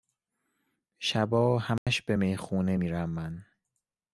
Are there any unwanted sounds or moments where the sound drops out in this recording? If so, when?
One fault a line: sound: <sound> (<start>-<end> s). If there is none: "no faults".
sound: dropout (1.8-1.9 s)